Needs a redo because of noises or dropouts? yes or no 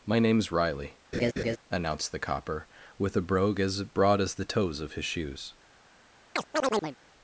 yes